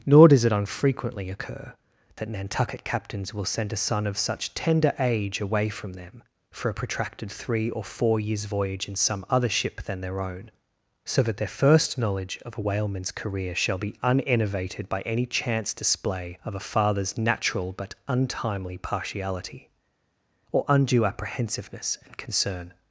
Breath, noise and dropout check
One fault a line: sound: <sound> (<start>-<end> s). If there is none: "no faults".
no faults